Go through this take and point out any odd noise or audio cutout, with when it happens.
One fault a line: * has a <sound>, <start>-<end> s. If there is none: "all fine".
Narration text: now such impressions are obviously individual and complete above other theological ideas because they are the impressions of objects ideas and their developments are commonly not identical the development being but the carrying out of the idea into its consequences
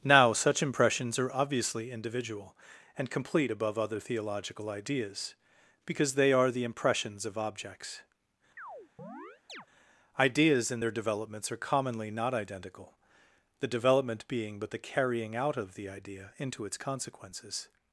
* has a chirp, 8.6-9.7 s